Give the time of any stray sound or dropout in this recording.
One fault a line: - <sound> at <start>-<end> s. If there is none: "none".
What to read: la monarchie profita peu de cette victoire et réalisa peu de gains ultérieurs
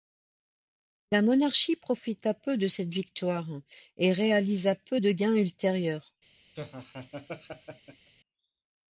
- laugh at 6.6-8.1 s